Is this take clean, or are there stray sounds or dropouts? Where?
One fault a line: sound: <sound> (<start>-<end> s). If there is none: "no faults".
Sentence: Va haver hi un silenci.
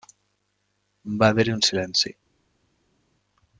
no faults